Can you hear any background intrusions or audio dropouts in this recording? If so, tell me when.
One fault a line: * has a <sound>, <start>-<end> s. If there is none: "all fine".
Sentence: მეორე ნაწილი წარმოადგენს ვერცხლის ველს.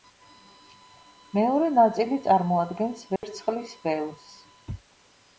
* has a dropout, 3.2-3.2 s